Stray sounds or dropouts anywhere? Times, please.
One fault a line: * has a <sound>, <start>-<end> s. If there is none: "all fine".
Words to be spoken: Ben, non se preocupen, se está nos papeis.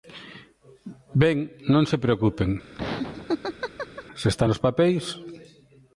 * has a laugh, 2.7-4.0 s